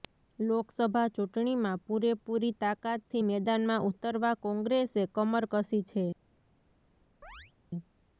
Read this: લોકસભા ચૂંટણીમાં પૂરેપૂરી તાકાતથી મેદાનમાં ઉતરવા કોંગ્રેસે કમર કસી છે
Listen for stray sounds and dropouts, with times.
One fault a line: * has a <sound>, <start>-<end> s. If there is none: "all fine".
* has a chirp, 7.2-7.5 s